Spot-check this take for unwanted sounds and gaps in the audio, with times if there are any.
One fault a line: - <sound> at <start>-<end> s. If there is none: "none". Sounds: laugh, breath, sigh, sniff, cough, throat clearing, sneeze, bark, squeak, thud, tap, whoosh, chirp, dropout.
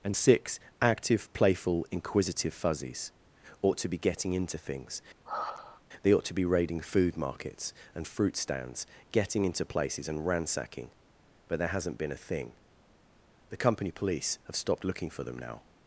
- sigh at 5.2-5.8 s